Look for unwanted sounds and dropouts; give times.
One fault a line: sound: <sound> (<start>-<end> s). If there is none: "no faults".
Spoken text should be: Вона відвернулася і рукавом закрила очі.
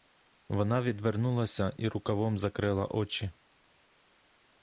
no faults